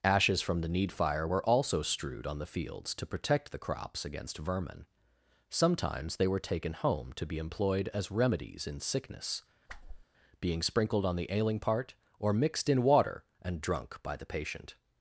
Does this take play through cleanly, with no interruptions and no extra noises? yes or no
no